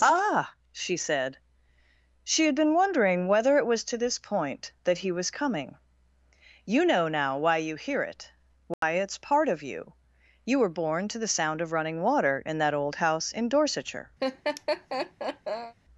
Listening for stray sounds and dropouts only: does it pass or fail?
fail